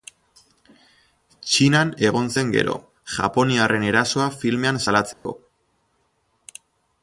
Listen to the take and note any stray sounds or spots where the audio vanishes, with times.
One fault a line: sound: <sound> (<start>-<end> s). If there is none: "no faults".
sound: dropout (5.1-5.3 s)